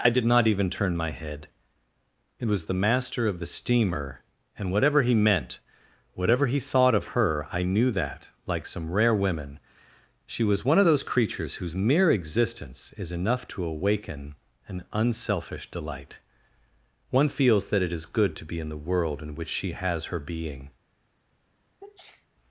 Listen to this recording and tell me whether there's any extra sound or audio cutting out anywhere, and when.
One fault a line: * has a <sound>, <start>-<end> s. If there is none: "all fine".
* has a sneeze, 21.8-22.3 s